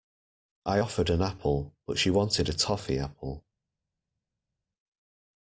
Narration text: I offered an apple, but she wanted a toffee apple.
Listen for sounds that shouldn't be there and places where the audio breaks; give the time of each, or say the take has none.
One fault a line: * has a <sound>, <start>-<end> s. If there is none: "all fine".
all fine